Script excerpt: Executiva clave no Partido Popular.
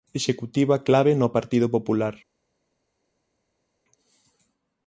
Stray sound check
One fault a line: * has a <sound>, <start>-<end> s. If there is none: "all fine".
all fine